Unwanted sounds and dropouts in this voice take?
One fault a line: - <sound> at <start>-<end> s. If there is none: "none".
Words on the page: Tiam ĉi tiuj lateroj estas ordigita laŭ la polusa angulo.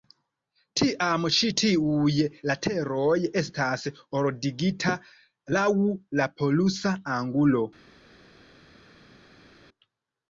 none